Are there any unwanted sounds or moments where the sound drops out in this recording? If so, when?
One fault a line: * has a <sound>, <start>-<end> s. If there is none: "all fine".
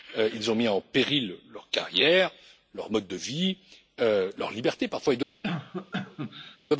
* has a cough, 5.4-6.6 s